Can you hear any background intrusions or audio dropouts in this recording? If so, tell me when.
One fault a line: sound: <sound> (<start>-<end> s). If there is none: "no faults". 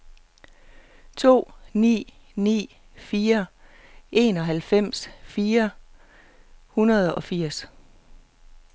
no faults